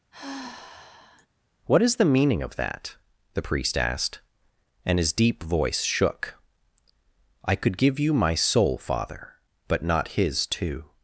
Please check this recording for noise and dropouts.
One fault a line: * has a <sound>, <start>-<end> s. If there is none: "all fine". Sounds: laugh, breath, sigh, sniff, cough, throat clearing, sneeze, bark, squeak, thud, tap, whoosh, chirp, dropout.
* has a sigh, 0.1-1.3 s